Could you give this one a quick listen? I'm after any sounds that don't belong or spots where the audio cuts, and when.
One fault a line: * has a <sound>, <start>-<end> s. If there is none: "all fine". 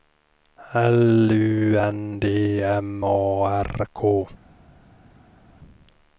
all fine